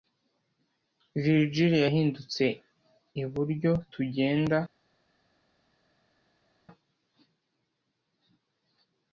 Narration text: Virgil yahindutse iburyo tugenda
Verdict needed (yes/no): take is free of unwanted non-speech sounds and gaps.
yes